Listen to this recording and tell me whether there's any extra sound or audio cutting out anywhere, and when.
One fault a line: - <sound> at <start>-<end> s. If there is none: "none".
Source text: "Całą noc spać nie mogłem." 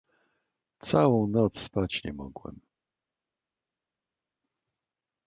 none